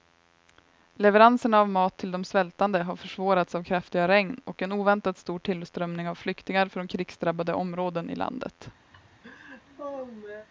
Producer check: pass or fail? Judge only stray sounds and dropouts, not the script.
fail